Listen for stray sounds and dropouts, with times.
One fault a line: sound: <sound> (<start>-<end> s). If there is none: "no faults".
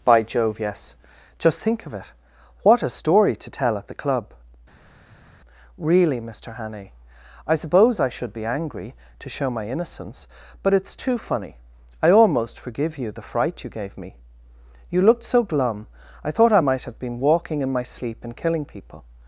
no faults